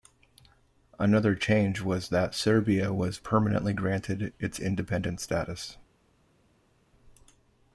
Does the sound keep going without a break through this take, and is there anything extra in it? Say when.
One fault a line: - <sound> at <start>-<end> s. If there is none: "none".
none